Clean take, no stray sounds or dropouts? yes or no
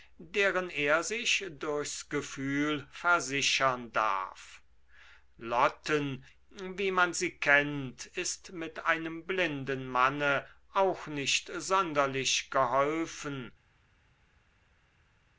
yes